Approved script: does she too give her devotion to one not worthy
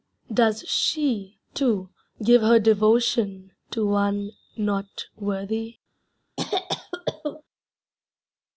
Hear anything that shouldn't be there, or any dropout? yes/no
yes